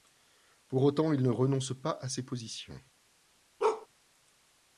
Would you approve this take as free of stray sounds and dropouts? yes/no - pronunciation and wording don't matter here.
no